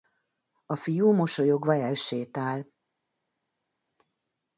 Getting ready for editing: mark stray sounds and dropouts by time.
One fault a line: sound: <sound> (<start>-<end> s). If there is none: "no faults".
no faults